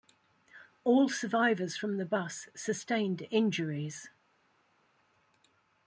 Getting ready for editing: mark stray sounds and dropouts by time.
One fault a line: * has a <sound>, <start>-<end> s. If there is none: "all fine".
all fine